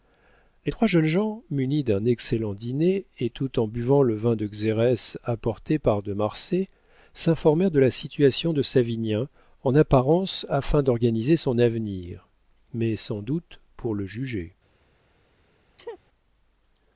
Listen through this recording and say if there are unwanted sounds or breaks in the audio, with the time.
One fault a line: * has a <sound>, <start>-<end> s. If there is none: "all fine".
* has a sneeze, 15.8-16.0 s